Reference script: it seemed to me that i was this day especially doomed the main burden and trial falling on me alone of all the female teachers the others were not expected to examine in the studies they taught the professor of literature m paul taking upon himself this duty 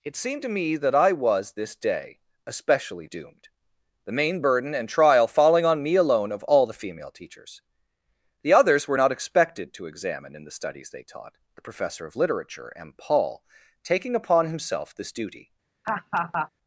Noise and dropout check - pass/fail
fail